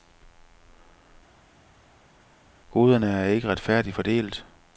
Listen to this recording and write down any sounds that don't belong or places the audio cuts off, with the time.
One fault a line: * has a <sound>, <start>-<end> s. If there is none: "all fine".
all fine